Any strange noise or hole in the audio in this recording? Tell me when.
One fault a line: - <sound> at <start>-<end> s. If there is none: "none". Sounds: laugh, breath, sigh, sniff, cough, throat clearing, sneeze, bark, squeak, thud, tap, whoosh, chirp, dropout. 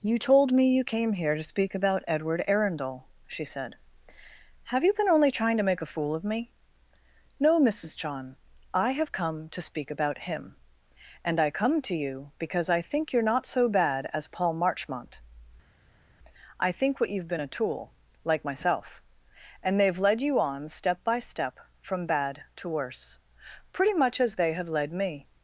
none